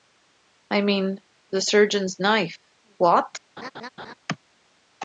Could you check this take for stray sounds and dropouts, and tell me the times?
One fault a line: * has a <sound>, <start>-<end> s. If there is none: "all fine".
* has a laugh, 3.6-4.1 s